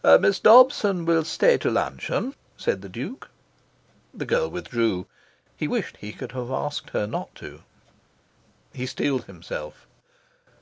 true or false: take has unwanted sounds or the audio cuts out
false